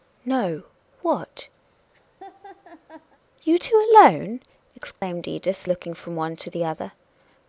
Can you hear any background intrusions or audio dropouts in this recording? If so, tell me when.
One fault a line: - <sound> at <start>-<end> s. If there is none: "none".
- laugh at 1.6-3.2 s
- dropout at 5.0-5.0 s